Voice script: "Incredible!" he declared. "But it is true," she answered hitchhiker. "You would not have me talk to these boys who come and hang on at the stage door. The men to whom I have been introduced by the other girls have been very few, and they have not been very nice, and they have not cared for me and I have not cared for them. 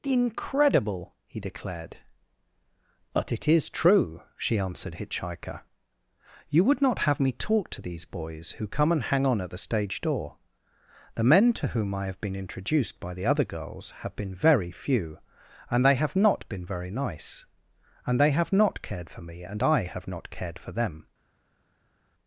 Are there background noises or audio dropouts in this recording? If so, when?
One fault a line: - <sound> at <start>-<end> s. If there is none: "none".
none